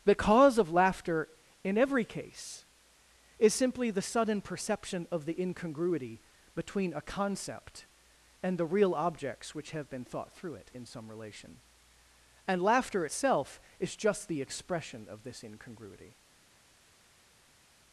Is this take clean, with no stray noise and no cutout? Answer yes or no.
yes